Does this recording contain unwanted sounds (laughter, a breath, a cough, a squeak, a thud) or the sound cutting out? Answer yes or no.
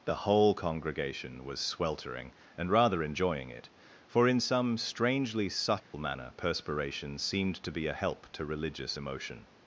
yes